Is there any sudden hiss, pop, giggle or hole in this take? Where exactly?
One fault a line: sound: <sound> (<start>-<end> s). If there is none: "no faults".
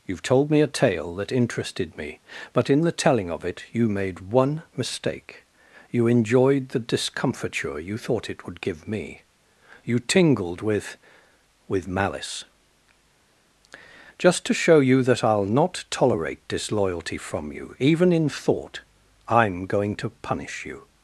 no faults